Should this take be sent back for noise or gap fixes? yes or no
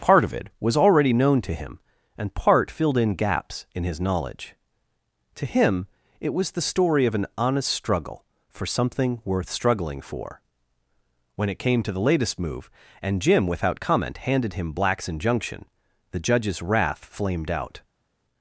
no